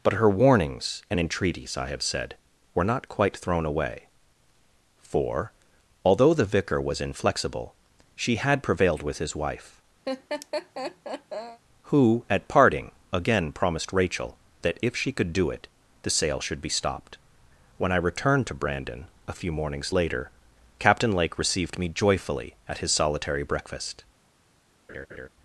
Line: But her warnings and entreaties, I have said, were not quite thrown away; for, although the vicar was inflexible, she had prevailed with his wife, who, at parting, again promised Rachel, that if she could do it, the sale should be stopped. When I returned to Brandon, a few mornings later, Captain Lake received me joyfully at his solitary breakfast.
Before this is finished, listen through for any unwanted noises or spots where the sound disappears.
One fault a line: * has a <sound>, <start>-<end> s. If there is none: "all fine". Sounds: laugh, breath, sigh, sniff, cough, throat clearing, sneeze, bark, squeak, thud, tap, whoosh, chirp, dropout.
* has a laugh, 10.0-11.6 s
* has a laugh, 24.9-25.3 s